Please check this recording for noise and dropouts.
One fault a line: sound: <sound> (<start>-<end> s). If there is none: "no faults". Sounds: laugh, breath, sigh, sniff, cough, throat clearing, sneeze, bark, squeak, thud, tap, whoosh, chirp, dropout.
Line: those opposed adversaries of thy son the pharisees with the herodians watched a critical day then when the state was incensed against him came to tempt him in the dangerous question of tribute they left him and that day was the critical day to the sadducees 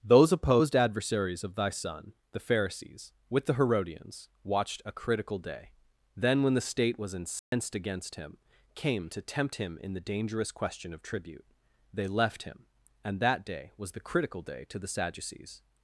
sound: dropout (7.4-7.5 s)